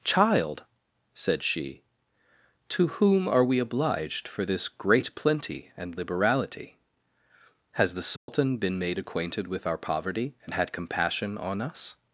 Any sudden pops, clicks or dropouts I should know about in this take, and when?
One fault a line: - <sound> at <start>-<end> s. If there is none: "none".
- dropout at 8.2-8.3 s